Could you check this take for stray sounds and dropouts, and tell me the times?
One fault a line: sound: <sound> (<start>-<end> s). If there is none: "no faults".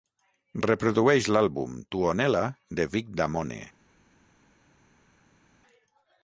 no faults